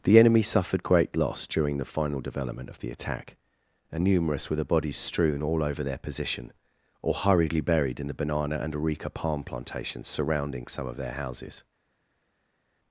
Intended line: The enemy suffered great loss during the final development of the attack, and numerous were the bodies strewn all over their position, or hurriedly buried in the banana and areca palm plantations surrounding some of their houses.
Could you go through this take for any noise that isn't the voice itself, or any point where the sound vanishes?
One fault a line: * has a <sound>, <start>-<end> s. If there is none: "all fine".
all fine